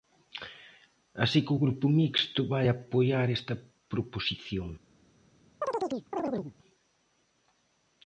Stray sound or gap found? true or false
true